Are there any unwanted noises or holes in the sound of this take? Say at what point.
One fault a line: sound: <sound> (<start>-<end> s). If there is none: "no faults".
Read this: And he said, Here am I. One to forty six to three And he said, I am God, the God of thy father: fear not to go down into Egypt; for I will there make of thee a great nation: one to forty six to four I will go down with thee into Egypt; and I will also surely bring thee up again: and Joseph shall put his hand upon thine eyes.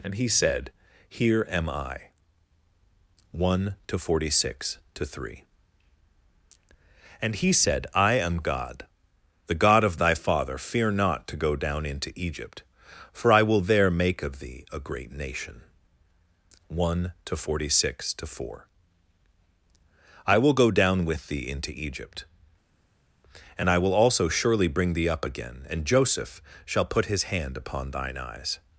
no faults